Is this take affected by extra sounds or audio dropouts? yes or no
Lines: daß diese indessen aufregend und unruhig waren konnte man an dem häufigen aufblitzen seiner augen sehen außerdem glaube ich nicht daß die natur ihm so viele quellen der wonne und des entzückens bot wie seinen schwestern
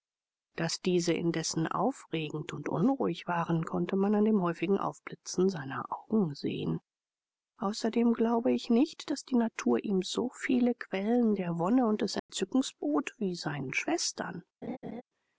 yes